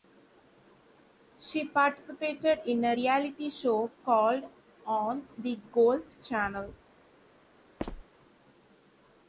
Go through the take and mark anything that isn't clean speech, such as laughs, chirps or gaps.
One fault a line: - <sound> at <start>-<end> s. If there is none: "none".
- squeak at 7.8-8.0 s